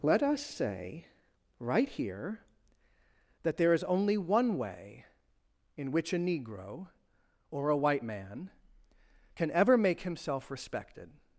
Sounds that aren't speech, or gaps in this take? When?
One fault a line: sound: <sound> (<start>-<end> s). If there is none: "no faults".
no faults